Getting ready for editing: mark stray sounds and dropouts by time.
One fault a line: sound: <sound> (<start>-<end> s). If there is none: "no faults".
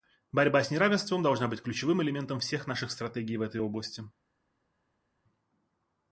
no faults